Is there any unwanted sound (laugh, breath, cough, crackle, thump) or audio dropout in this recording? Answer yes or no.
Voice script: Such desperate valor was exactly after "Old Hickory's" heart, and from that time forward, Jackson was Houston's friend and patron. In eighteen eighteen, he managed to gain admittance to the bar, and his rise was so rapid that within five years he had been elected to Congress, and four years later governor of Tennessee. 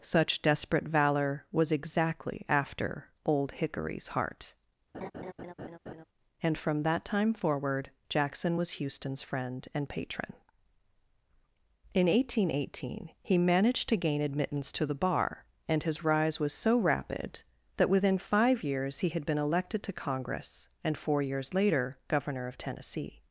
yes